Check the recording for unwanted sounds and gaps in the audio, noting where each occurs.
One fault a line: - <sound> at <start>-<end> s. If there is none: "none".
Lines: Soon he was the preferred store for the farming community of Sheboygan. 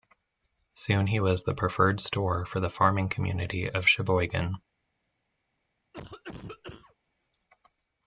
- cough at 5.9-7.0 s